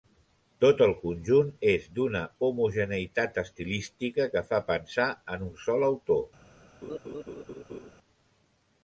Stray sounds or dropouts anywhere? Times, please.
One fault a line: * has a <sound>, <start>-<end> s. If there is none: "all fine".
* has a laugh, 6.8-7.9 s